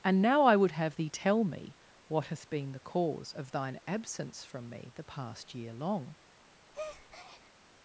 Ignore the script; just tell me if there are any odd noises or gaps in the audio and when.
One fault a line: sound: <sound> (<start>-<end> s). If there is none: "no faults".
sound: breath (6.7-7.5 s)